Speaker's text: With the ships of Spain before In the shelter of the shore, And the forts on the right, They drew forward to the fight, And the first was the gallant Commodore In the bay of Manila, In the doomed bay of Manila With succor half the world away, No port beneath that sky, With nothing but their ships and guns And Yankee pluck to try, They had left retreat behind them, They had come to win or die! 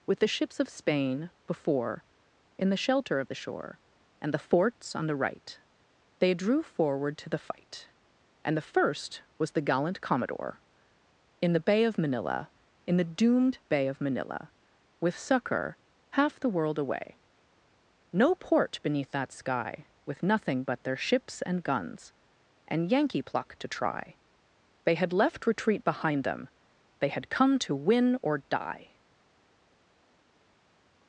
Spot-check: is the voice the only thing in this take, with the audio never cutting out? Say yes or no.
yes